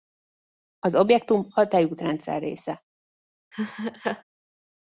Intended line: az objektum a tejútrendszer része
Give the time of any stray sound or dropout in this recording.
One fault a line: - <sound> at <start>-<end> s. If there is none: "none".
- laugh at 3.5-4.2 s